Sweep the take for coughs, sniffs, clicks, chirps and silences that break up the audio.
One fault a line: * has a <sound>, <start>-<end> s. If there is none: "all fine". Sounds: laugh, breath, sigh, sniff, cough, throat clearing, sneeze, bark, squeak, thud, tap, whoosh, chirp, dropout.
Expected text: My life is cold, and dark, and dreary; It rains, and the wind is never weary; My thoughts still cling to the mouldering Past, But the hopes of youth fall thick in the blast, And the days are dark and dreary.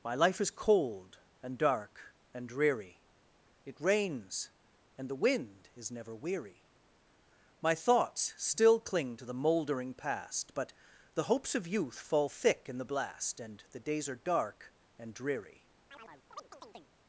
* has a chirp, 15.9-16.9 s